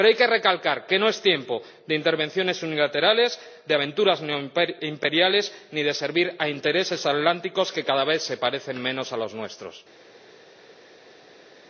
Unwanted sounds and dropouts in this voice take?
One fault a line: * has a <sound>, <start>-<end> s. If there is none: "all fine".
all fine